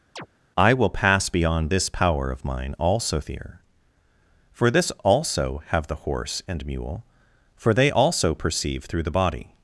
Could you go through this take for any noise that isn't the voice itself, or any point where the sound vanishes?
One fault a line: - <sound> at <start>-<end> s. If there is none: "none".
- chirp at 0.2-0.3 s